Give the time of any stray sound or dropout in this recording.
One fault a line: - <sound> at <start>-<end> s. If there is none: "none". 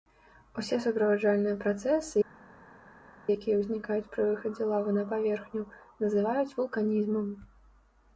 none